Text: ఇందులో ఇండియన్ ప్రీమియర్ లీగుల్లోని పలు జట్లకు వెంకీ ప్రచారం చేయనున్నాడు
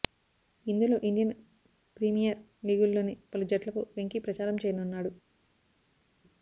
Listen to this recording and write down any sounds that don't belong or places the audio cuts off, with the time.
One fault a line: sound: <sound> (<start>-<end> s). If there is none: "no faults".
no faults